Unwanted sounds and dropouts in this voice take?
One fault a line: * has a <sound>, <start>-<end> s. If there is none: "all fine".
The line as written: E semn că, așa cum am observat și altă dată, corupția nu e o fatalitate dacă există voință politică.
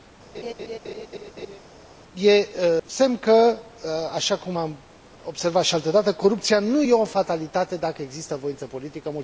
* has a laugh, 0.3-1.6 s